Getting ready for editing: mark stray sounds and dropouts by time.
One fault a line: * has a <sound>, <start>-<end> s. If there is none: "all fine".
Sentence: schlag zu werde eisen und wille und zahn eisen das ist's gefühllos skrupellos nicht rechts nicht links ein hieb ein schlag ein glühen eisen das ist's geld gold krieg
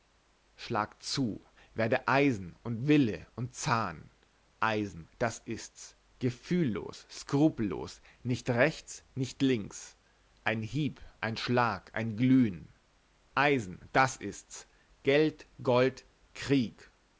all fine